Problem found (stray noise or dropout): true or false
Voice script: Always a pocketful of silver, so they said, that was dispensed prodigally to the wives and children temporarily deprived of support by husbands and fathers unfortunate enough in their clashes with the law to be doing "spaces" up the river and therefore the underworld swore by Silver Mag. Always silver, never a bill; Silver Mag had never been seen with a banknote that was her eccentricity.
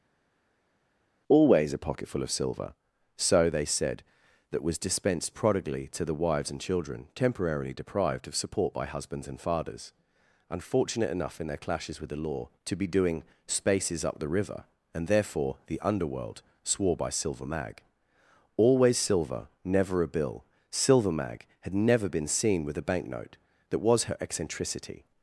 false